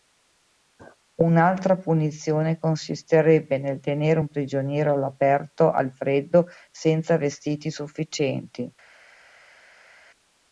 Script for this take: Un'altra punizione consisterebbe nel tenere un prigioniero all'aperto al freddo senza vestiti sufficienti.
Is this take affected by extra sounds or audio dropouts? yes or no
no